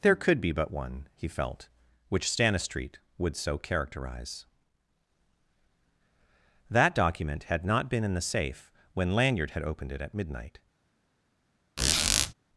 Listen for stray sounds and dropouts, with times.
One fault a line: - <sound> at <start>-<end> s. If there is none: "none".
- squeak at 11.8-12.3 s